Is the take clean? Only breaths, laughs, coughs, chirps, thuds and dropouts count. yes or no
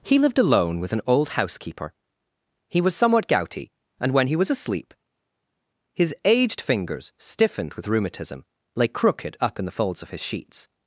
yes